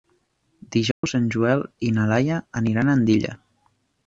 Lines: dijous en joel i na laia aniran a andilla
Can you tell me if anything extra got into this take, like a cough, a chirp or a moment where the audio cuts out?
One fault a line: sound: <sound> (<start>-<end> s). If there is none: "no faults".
sound: dropout (0.9-1.0 s)